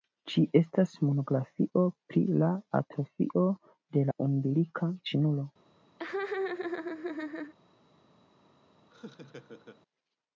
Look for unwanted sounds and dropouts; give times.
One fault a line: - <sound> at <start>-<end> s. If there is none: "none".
- laugh at 6.0-7.5 s
- laugh at 8.9-9.8 s